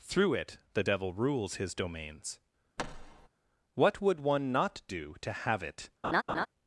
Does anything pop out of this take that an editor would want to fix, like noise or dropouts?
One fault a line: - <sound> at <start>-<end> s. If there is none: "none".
- thud at 2.8-3.3 s
- laugh at 6.0-6.5 s